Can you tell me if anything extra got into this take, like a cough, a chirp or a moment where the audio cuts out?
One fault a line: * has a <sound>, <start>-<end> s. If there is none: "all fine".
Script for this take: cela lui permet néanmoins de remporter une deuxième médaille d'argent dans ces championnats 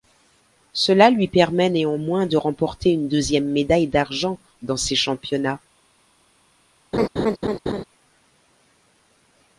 * has a laugh, 6.9-7.8 s